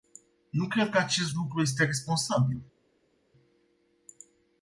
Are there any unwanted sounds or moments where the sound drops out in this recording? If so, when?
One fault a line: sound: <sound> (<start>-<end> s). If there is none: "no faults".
no faults